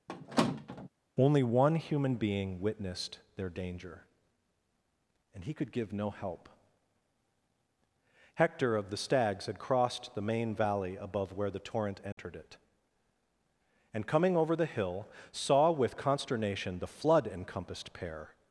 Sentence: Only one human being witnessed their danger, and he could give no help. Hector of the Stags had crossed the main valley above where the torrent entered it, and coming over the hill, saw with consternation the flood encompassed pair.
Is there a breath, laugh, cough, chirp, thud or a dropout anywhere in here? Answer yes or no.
yes